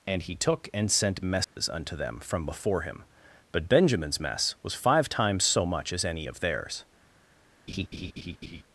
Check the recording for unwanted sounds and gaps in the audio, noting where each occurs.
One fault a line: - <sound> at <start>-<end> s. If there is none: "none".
- dropout at 1.4-1.6 s
- laugh at 7.7-8.6 s